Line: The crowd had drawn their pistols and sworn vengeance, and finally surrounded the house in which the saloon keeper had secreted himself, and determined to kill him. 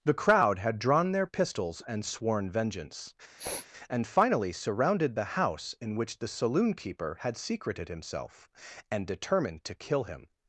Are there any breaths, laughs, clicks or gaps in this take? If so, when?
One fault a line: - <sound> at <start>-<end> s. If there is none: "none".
- sniff at 3.4-3.7 s